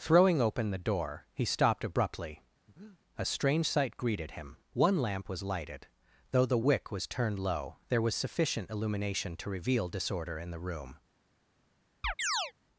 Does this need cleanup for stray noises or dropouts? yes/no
yes